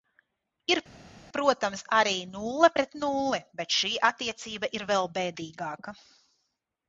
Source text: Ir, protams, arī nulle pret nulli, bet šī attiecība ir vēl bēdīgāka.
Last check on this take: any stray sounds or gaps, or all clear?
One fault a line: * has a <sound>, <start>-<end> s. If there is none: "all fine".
all fine